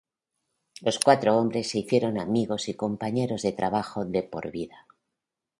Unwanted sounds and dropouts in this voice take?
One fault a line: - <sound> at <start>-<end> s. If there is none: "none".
none